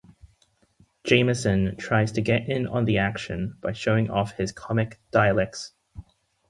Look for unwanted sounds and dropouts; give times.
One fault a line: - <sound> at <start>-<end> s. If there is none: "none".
none